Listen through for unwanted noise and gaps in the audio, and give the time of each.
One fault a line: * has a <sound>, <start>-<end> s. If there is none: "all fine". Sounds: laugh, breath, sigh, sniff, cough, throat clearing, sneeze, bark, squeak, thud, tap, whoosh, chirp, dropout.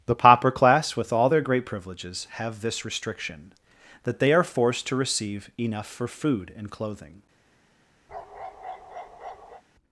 * has a bark, 8.1-9.6 s